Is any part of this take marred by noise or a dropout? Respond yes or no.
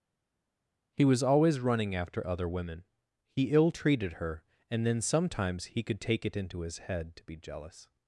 no